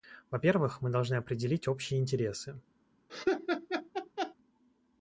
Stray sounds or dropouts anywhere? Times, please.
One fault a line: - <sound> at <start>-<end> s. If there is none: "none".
- laugh at 3.1-4.3 s